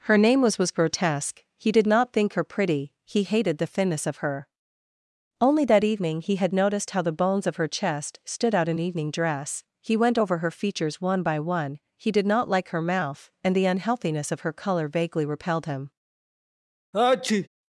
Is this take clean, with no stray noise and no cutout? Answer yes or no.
no